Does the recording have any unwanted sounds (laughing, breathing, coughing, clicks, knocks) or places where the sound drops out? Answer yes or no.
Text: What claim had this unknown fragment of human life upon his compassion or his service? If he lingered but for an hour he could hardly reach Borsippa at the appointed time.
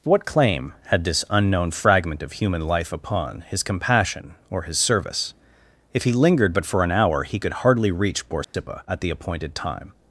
yes